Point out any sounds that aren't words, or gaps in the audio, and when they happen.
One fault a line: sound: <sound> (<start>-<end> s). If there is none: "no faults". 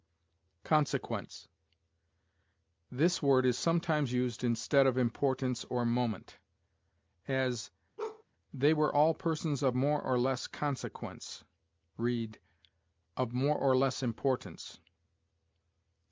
sound: bark (8.0-8.2 s)